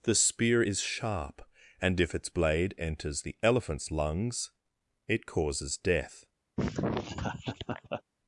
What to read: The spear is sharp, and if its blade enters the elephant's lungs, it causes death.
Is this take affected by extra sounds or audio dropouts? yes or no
yes